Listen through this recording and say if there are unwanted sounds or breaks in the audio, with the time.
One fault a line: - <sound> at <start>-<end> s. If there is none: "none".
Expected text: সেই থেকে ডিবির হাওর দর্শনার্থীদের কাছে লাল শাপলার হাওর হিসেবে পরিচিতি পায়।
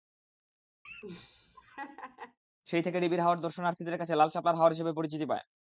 - laugh at 0.8-2.4 s